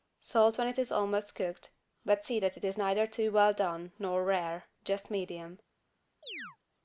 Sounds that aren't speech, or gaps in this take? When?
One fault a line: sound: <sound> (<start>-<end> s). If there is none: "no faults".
sound: chirp (6.2-6.6 s)